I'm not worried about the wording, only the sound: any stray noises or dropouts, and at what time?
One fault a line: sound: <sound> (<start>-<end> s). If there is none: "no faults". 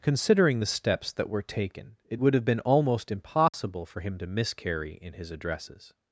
sound: dropout (3.5-3.5 s)